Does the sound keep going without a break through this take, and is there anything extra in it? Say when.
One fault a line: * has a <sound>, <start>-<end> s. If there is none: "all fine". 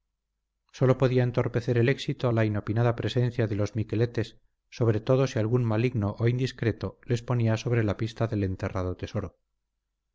all fine